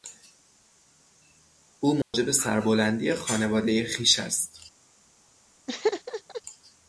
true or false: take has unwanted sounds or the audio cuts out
true